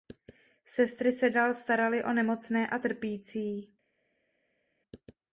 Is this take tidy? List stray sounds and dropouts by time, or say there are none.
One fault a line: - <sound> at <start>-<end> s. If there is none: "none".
none